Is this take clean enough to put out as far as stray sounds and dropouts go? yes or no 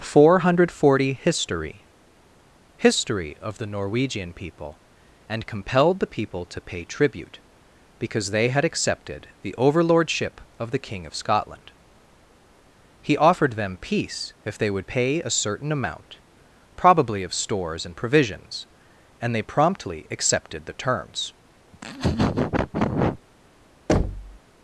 no